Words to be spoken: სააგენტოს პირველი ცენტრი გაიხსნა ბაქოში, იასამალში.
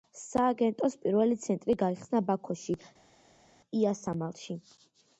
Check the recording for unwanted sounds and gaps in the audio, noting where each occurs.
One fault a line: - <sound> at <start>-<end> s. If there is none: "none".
none